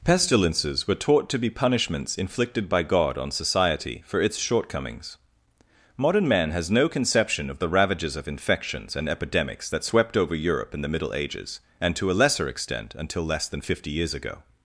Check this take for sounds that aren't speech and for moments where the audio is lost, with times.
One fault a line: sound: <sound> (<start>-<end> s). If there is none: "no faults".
no faults